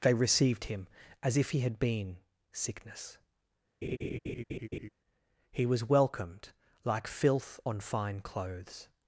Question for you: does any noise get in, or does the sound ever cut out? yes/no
yes